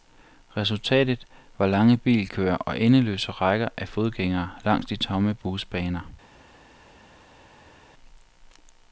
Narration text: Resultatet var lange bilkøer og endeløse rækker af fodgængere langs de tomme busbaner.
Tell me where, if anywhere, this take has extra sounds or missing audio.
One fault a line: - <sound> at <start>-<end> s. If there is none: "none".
none